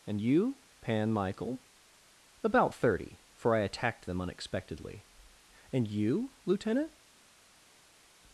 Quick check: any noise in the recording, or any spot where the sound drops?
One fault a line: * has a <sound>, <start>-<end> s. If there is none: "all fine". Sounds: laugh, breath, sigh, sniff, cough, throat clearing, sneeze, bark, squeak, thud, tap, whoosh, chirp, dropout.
all fine